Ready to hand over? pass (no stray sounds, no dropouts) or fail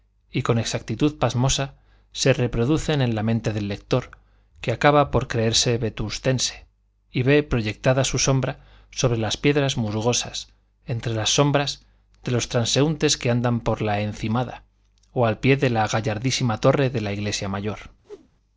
fail